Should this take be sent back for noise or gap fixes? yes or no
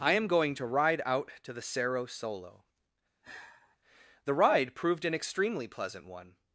yes